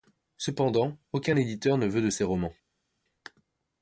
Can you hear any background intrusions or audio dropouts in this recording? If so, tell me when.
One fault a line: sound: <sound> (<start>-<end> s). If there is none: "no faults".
no faults